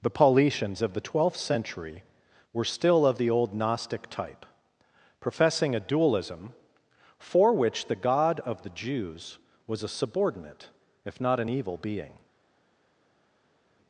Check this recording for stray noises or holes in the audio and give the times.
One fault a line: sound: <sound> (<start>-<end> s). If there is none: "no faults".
no faults